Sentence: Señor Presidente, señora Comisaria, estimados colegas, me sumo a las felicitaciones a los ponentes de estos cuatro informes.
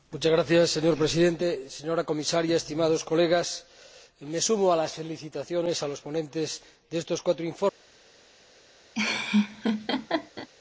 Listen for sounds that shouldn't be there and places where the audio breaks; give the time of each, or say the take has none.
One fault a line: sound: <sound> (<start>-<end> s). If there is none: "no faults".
sound: laugh (8.9-10.5 s)